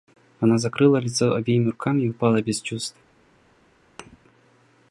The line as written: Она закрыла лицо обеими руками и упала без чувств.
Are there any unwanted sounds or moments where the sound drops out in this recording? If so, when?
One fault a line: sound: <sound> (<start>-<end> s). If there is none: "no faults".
sound: thud (4.0-4.2 s)